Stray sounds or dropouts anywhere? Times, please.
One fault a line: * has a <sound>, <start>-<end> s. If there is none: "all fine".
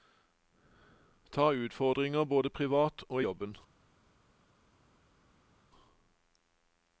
all fine